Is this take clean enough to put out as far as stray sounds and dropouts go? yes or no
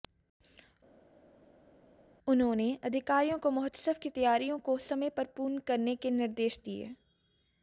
yes